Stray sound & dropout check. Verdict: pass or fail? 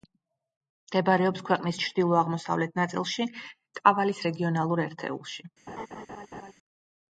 fail